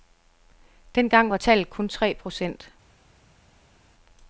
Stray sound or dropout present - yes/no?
no